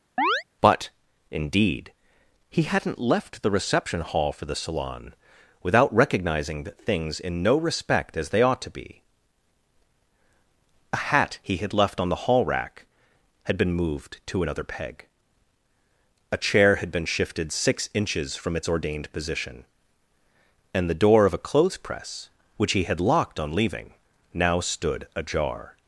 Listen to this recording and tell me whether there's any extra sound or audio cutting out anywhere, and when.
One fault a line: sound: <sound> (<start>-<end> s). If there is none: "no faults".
sound: chirp (0.2-0.4 s)